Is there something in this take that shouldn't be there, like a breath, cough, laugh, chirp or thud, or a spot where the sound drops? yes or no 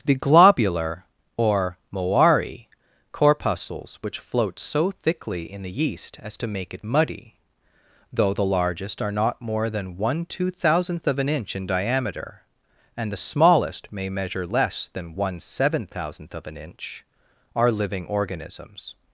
no